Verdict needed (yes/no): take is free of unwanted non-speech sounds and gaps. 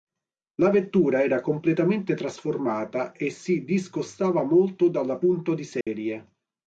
no